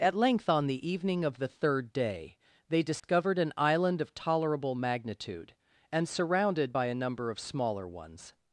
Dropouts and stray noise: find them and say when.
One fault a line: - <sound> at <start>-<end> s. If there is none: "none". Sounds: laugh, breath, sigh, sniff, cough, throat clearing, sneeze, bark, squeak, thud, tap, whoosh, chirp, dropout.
- dropout at 3.0-3.0 s